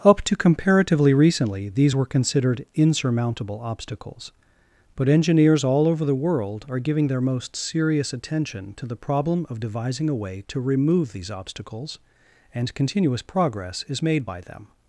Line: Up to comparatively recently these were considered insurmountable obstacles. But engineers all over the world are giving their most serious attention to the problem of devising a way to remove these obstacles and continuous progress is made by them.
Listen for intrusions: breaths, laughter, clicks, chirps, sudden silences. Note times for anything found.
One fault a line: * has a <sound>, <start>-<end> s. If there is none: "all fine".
all fine